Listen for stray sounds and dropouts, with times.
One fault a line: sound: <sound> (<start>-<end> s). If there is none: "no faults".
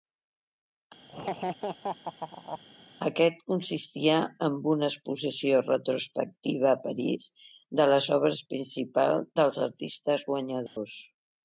sound: laugh (1.1-2.6 s)
sound: dropout (10.7-10.8 s)